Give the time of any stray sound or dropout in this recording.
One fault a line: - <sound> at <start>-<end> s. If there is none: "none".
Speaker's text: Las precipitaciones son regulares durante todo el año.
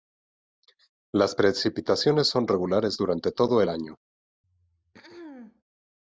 - throat clearing at 4.4-5.6 s